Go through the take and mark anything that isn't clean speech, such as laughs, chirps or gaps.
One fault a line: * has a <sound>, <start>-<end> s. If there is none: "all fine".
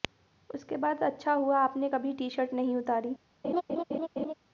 * has a laugh, 3.4-4.3 s